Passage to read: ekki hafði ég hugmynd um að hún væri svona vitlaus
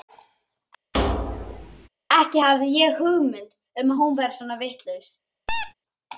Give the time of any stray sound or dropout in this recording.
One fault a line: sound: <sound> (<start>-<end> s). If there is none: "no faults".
sound: thud (0.9-1.9 s)
sound: squeak (5.5-5.7 s)